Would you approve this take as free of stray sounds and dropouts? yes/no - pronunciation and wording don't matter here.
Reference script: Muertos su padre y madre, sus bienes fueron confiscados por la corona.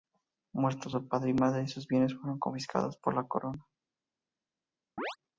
no